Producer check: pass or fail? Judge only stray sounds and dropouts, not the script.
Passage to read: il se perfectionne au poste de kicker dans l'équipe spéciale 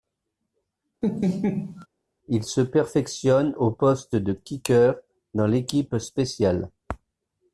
fail